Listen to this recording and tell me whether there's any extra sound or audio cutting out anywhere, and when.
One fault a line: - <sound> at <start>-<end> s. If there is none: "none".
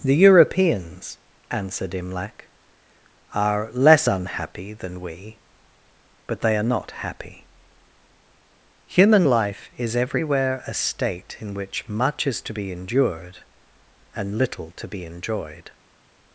none